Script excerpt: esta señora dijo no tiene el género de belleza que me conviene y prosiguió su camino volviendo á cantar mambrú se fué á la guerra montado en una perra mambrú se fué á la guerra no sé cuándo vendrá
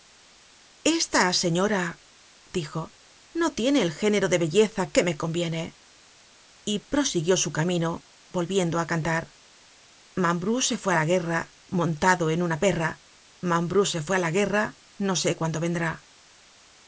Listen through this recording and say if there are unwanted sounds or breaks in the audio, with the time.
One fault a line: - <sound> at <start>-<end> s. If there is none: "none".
none